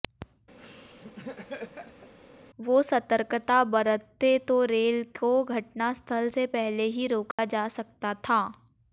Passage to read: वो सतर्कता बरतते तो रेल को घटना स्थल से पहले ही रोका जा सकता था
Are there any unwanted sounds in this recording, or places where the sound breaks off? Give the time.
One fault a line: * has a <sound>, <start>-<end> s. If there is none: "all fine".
* has a laugh, 0.6-2.1 s
* has a dropout, 7.3-7.4 s